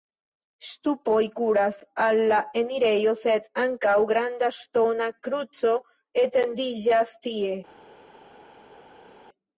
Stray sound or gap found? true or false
false